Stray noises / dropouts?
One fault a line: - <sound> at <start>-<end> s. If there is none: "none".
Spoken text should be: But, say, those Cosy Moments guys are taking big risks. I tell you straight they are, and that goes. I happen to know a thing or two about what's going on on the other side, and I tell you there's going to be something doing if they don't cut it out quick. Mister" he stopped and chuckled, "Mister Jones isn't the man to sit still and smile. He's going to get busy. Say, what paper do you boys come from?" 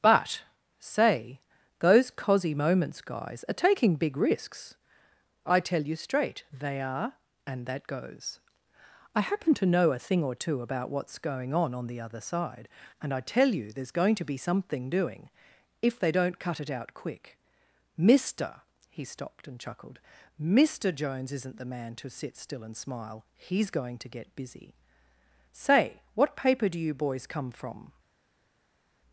none